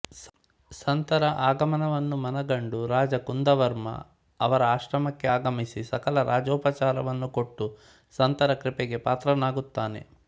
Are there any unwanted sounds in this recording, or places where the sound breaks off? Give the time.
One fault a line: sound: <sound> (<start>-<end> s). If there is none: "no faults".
no faults